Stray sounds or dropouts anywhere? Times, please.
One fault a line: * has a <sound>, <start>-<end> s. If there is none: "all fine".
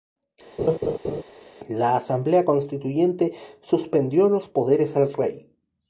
* has a laugh, 0.6-1.2 s